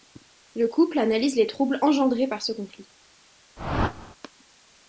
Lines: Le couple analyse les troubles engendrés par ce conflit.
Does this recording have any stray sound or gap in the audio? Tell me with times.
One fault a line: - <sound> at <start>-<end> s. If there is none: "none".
- whoosh at 3.6-4.2 s